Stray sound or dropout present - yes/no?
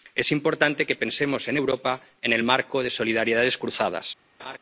yes